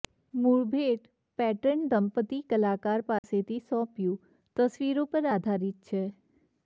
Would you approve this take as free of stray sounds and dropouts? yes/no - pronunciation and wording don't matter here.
no